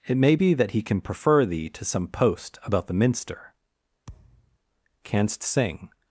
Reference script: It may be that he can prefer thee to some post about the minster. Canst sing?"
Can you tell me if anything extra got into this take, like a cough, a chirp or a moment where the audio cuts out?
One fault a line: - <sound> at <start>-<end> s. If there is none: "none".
- thud at 4.1-4.6 s